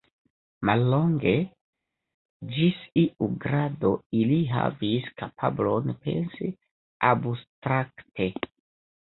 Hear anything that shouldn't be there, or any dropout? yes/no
no